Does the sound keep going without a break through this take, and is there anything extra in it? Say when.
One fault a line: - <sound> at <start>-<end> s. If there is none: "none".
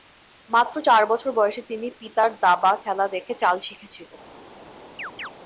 - chirp at 5.0-5.3 s